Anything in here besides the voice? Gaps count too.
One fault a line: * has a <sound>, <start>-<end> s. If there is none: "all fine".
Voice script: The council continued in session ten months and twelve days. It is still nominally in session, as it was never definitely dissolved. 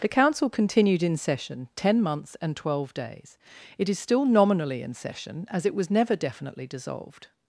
all fine